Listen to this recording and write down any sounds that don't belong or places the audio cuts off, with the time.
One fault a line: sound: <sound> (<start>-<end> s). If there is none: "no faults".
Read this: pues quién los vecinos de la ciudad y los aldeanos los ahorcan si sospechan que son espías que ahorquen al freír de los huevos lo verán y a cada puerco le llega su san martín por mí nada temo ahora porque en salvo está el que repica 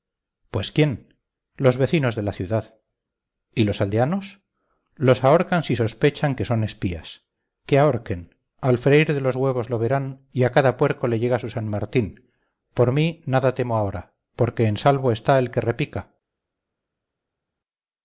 no faults